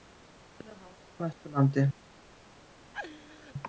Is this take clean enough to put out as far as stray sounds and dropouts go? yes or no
no